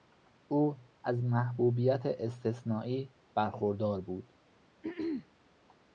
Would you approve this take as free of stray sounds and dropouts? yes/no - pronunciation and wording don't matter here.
no